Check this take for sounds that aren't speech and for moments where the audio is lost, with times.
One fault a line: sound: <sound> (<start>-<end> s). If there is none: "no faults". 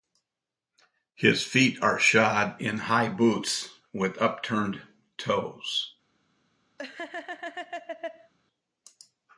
sound: laugh (6.8-8.3 s)